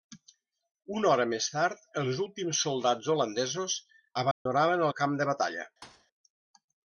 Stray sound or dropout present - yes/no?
yes